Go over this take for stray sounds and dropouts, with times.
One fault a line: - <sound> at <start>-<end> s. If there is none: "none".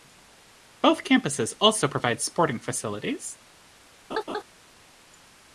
- laugh at 4.1-4.4 s